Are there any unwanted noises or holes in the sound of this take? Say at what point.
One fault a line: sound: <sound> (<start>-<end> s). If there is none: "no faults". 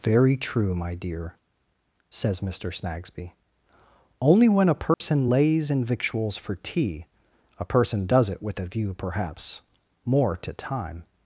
sound: dropout (4.9-5.0 s)